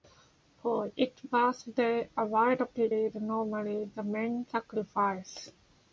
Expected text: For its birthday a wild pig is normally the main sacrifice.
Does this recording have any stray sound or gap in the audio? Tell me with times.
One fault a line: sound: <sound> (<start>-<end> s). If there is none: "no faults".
no faults